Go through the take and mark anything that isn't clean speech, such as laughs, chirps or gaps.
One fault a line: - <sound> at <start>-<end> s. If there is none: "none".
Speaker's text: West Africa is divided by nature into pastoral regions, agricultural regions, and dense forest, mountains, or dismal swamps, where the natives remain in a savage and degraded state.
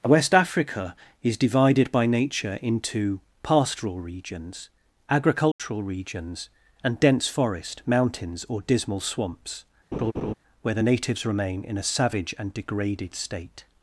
- dropout at 5.5-5.6 s
- laugh at 9.9-10.3 s